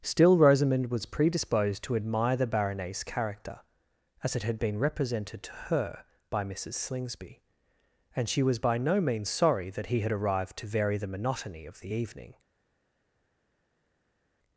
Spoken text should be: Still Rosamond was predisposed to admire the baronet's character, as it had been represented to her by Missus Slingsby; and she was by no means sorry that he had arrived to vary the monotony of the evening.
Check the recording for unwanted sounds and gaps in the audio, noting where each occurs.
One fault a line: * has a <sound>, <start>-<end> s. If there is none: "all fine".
all fine